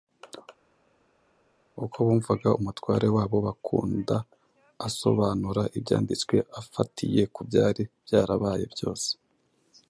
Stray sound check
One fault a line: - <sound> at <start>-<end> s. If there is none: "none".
none